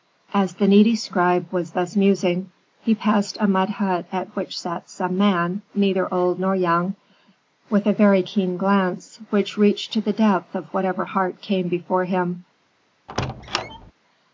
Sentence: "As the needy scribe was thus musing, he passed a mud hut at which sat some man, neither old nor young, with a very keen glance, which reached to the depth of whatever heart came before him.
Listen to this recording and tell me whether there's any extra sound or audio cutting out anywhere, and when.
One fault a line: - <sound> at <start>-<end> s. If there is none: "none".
- squeak at 13.1-13.9 s